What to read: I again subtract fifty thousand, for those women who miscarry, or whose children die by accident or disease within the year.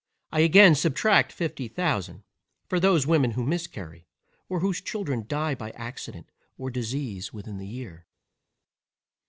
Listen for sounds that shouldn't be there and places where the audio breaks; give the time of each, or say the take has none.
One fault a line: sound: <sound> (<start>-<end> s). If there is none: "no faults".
no faults